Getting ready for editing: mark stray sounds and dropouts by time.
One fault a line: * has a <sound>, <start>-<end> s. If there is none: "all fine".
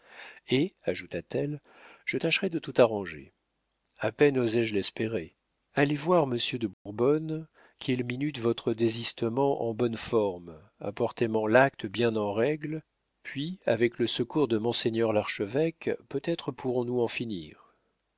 * has a dropout, 6.7-6.9 s